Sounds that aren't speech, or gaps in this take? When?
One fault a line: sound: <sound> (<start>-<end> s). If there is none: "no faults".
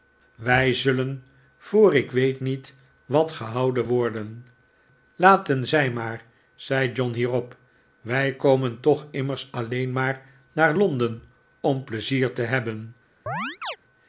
sound: chirp (13.3-13.8 s)